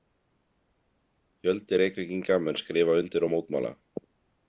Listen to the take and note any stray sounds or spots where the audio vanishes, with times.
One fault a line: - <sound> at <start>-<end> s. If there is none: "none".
none